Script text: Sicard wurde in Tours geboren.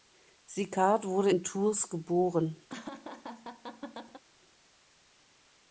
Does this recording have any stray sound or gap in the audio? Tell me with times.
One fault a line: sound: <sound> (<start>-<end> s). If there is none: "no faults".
sound: laugh (2.7-4.2 s)